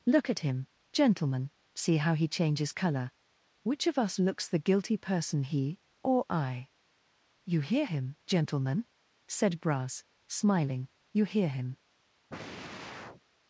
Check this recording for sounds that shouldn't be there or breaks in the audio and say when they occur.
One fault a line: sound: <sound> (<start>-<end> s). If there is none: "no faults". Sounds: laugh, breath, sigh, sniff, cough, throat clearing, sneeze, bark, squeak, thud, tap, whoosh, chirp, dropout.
sound: sigh (12.3-13.2 s)